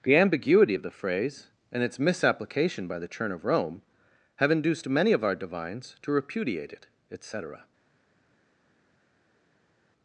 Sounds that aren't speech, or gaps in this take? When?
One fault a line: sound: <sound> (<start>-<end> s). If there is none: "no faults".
no faults